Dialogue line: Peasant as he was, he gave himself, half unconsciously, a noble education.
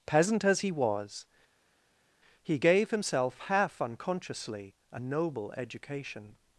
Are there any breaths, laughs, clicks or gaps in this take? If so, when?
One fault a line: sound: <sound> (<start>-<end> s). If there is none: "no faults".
no faults